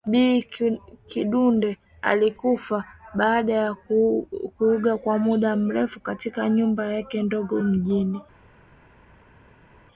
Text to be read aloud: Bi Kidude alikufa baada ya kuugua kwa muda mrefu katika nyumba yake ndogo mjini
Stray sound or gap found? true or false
false